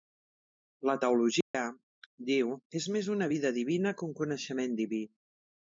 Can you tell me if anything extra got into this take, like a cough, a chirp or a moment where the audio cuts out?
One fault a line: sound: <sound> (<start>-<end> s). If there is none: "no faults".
sound: dropout (1.4-1.5 s)